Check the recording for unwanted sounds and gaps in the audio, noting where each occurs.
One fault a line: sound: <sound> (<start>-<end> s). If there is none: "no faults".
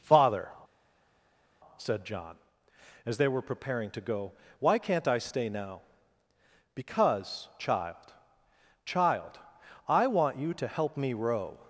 no faults